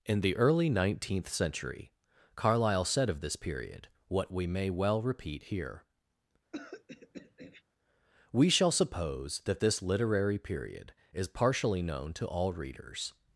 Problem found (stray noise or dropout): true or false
true